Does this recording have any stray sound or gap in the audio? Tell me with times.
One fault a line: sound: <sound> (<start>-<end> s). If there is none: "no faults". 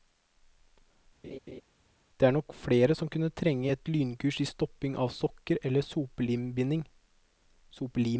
sound: laugh (1.2-1.6 s)